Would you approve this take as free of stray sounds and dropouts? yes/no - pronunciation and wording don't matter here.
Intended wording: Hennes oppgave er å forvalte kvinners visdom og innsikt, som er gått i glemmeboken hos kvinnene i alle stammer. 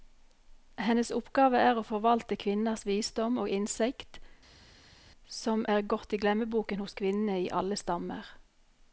yes